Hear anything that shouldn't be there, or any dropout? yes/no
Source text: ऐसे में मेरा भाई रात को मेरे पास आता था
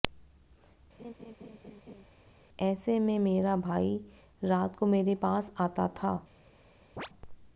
yes